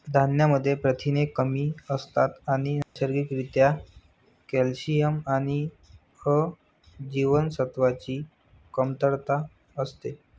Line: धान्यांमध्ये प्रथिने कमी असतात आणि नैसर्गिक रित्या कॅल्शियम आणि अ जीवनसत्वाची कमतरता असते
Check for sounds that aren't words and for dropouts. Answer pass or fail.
fail